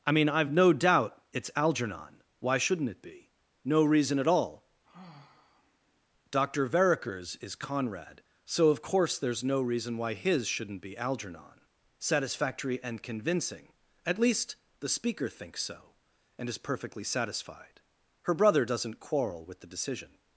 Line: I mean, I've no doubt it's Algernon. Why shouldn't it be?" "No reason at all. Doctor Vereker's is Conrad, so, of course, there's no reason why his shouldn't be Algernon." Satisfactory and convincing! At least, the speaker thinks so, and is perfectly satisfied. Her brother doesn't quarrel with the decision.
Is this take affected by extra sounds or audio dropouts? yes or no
yes